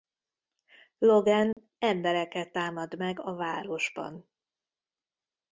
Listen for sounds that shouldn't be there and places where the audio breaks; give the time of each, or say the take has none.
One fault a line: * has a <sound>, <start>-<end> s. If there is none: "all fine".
* has a dropout, 1.5-1.6 s